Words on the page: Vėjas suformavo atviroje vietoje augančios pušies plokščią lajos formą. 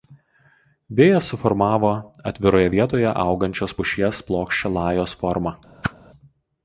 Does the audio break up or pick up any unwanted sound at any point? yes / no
yes